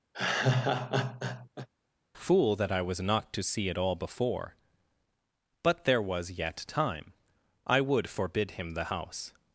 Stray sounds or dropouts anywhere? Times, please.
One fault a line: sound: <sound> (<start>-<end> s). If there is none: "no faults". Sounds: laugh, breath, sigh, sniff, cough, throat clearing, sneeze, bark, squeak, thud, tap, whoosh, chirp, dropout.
sound: laugh (0.1-1.7 s)